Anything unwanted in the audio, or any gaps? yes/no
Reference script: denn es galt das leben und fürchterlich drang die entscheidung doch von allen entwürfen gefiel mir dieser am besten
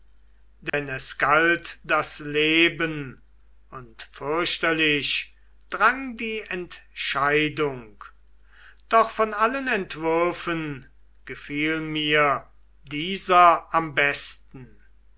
yes